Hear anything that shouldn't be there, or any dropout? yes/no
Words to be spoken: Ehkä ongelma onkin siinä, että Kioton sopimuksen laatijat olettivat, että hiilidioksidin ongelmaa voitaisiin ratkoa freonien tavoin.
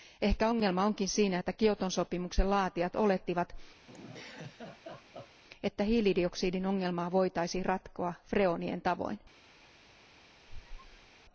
yes